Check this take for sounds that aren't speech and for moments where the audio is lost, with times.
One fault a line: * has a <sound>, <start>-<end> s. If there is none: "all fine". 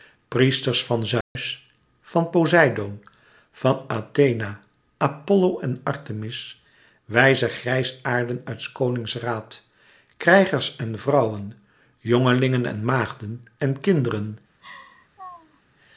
* has a dropout, 1.2-1.4 s
* has a laugh, 14.6-15.6 s